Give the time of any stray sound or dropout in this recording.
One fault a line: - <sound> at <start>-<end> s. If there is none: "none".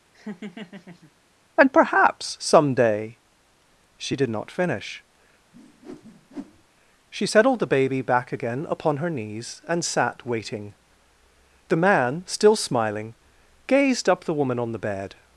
- laugh at 0.1-1.1 s
- whoosh at 5.5-6.7 s